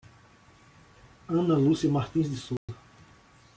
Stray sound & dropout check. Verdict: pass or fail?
fail